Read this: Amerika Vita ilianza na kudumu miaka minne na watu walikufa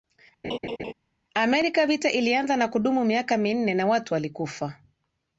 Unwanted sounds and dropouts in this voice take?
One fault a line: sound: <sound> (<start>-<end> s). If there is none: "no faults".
sound: laugh (0.4-0.9 s)